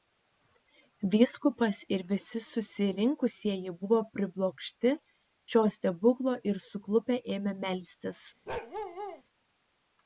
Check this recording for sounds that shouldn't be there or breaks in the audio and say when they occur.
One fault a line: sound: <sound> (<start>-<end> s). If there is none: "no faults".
sound: bark (8.5-9.2 s)